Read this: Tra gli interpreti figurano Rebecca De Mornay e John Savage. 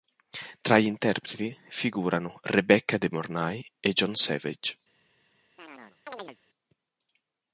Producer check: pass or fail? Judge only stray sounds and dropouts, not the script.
fail